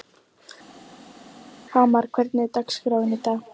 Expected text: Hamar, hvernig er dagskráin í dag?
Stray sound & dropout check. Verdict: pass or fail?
pass